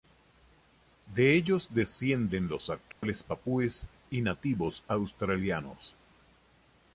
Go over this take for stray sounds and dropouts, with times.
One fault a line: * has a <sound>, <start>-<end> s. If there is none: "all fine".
* has a dropout, 2.9-3.0 s